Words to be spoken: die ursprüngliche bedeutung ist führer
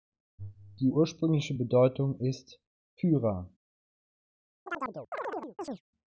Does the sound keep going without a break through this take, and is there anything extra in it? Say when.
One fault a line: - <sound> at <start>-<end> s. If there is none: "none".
- chirp at 4.7-5.8 s